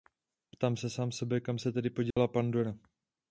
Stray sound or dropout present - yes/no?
yes